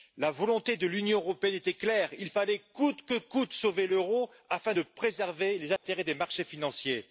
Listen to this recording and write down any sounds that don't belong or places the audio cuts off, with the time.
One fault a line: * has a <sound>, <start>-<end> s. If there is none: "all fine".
* has a dropout, 5.8-5.8 s